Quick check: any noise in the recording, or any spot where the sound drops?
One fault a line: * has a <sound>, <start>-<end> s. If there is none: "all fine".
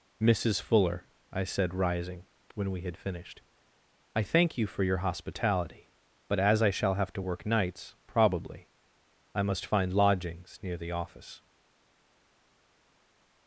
all fine